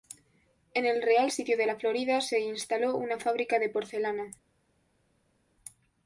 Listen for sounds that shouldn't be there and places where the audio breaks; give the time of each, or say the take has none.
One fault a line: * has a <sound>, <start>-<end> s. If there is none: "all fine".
all fine